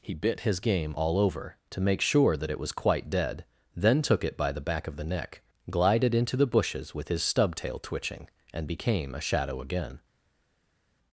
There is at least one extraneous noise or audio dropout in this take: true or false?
false